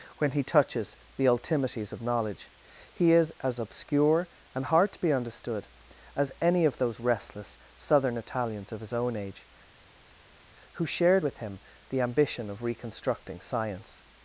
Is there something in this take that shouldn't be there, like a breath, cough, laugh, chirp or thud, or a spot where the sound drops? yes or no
no